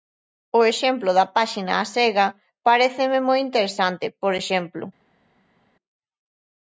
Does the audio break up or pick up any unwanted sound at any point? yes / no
no